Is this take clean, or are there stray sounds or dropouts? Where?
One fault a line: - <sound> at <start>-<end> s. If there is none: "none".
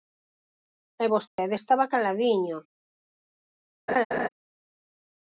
- dropout at 1.3-1.4 s
- laugh at 3.9-4.3 s